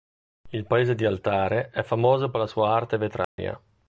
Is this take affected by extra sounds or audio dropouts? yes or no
yes